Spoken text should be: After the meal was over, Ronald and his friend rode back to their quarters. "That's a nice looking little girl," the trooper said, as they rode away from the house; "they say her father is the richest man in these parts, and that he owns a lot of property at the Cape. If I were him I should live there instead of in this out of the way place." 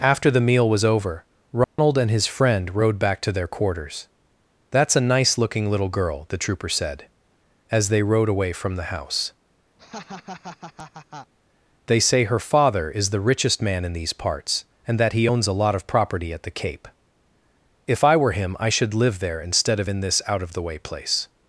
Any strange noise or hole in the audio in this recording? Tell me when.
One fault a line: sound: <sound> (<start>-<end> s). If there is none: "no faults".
sound: dropout (1.6-1.8 s)
sound: laugh (9.8-11.3 s)